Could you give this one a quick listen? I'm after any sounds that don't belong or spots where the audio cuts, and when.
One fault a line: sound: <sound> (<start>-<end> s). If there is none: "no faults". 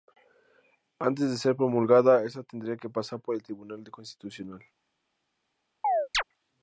sound: chirp (5.8-6.2 s)